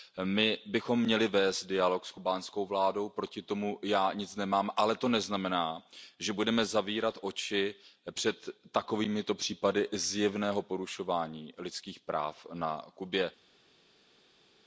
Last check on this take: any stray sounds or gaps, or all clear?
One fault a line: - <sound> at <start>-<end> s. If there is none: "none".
none